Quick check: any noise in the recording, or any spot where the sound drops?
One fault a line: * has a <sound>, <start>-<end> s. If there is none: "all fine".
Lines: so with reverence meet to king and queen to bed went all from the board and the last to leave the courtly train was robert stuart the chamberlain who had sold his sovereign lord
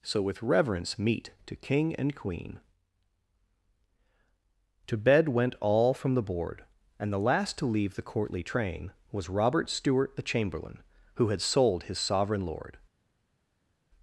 all fine